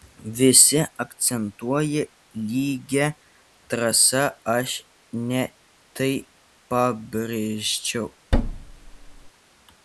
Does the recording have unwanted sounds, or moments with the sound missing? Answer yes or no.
yes